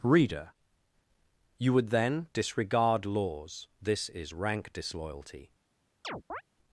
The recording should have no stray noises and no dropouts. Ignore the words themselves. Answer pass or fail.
fail